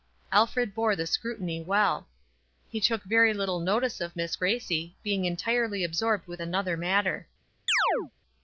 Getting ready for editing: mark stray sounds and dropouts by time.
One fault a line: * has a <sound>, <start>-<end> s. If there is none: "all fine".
* has a chirp, 7.7-8.1 s